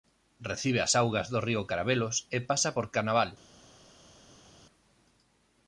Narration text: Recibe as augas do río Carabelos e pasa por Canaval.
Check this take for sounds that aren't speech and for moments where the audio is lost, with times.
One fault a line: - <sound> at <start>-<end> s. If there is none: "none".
none